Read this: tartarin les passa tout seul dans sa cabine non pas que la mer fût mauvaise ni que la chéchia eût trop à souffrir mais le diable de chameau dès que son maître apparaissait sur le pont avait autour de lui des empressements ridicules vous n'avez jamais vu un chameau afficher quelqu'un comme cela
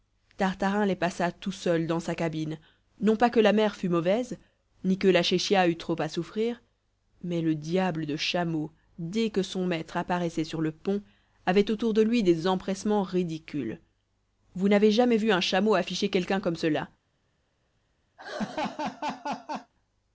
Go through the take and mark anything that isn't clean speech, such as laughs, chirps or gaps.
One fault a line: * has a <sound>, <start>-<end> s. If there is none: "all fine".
* has a laugh, 18.2-19.7 s